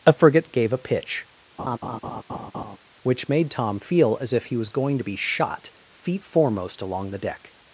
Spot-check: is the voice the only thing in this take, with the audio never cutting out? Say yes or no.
no